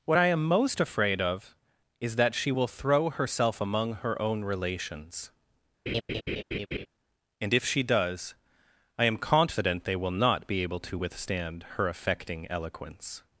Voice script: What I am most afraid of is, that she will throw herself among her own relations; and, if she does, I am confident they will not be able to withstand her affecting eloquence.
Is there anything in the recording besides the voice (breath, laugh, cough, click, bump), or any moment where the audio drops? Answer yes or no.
yes